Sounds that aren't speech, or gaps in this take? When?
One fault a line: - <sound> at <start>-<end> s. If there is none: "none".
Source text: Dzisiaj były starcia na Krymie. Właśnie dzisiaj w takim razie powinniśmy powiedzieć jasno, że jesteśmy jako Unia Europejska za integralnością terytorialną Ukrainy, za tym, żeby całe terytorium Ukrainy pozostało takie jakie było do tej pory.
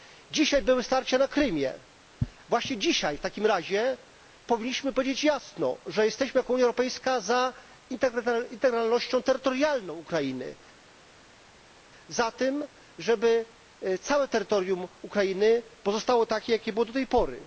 none